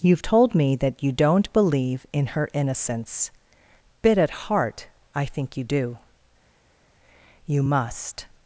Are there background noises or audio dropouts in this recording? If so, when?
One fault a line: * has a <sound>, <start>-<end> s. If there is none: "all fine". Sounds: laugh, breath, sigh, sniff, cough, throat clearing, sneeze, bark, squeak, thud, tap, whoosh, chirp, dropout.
all fine